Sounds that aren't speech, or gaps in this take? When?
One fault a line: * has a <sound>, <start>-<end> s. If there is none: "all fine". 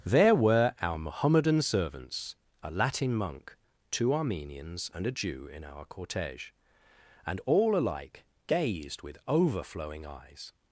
all fine